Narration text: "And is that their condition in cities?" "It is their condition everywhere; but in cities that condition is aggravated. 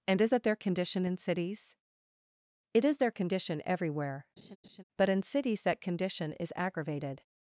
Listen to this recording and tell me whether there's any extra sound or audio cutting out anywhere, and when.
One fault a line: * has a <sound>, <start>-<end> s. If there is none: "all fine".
* has a laugh, 4.4-4.8 s